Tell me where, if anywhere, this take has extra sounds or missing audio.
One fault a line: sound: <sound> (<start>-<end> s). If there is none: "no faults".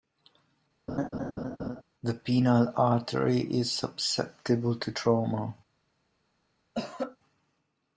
sound: laugh (0.9-1.8 s)
sound: cough (6.7-7.2 s)